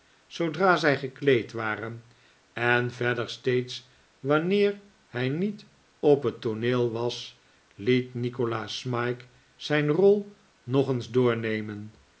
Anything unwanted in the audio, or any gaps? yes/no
no